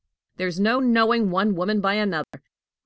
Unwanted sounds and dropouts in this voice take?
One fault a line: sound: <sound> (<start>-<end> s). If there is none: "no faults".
sound: dropout (2.2-2.3 s)